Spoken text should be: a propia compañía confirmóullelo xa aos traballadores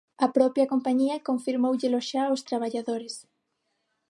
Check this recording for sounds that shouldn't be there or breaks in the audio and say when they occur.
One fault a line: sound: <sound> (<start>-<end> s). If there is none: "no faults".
no faults